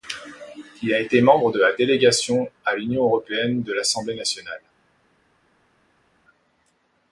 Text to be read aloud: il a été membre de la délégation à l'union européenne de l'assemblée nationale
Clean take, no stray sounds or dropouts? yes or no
yes